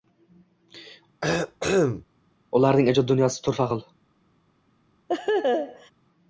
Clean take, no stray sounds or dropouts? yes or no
no